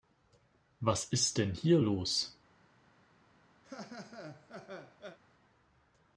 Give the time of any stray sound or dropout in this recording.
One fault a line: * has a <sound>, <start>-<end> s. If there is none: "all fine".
* has a laugh, 3.6-5.2 s